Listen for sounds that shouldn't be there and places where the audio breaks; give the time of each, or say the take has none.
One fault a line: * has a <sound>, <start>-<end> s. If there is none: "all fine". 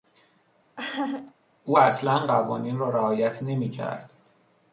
* has a laugh, 0.8-1.3 s